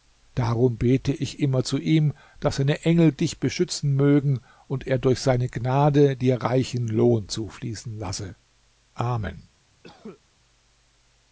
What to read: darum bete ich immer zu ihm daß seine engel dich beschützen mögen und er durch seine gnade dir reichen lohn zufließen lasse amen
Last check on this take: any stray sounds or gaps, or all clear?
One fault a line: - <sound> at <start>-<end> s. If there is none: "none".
- cough at 9.8-10.2 s